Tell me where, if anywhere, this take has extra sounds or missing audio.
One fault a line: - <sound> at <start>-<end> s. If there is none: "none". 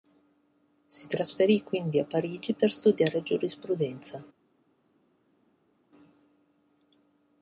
none